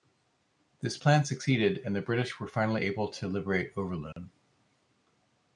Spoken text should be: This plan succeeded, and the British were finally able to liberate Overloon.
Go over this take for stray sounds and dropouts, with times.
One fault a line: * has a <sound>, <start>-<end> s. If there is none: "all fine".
* has a dropout, 4.1-4.2 s